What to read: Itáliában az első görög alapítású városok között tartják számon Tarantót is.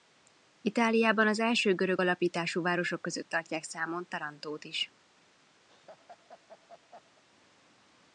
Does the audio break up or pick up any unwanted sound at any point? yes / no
yes